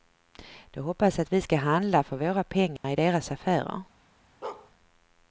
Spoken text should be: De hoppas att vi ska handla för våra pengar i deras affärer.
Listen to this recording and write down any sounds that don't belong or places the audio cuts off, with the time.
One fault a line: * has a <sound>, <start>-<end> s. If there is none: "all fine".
* has a dropout, 2.8-2.8 s
* has a bark, 4.4-4.7 s